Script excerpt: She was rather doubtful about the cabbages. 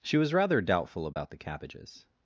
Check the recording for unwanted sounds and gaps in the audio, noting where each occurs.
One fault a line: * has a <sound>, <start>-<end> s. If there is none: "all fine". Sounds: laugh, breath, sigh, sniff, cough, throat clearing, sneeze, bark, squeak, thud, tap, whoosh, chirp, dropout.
* has a dropout, 1.1-1.2 s